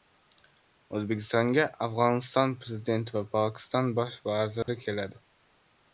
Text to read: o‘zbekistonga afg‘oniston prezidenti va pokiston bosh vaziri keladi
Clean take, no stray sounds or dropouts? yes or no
no